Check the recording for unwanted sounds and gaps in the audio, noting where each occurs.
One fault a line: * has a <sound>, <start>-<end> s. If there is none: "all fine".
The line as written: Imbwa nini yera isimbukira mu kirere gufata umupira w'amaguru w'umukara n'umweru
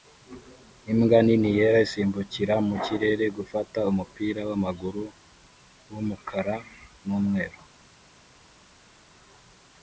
all fine